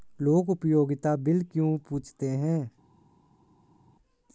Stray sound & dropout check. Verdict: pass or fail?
pass